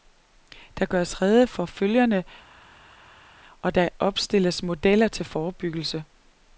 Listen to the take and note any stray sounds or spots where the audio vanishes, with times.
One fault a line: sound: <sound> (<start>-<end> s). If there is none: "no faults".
no faults